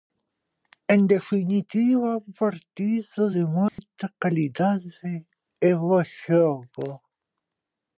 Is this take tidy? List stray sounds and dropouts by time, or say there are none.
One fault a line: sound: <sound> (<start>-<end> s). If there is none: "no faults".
sound: dropout (3.7-3.8 s)